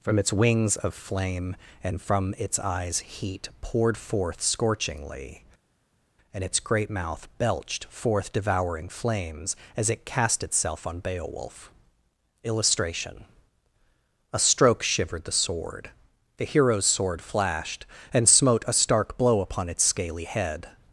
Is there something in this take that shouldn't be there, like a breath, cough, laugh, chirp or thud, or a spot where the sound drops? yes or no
no